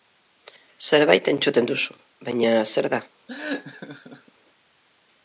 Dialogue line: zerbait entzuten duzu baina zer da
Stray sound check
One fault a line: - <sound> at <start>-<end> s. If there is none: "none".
- laugh at 3.3-4.3 s